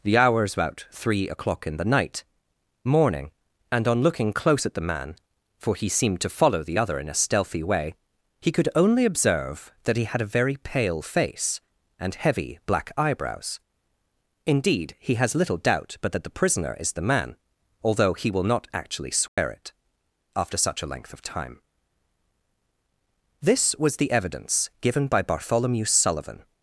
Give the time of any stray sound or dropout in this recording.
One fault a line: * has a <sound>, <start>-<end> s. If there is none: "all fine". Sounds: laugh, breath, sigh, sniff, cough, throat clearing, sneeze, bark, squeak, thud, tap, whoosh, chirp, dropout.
* has a dropout, 19.3-19.4 s